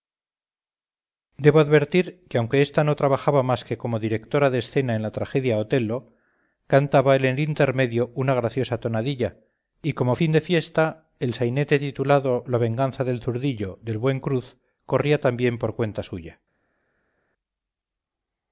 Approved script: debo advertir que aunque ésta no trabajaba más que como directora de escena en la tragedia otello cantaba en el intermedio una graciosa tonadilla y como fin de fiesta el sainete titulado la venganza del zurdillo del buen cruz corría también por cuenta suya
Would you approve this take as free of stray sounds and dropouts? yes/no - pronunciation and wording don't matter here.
yes